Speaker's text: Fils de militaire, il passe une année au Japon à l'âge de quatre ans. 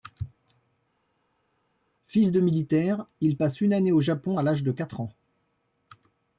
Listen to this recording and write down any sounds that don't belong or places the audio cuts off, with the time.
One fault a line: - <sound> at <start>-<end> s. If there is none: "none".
none